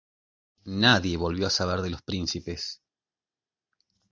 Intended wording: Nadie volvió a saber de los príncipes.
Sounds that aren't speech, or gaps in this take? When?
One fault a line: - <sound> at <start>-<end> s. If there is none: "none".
none